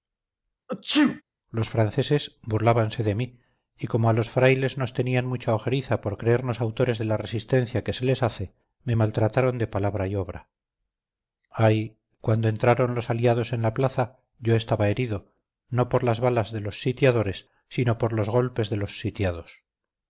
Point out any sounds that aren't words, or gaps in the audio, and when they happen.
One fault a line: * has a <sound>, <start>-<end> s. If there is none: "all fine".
* has a sneeze, 0.7-1.2 s